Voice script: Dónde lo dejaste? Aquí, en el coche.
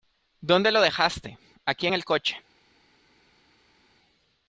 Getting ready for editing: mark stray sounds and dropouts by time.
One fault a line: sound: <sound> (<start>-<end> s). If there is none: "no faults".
no faults